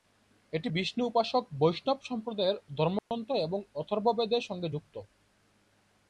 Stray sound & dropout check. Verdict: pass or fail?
fail